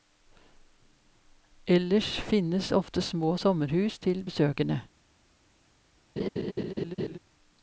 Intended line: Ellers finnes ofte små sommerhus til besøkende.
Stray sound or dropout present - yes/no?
yes